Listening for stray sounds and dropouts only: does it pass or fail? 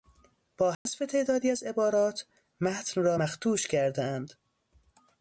fail